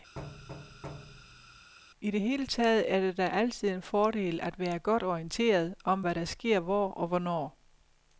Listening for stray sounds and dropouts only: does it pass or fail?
fail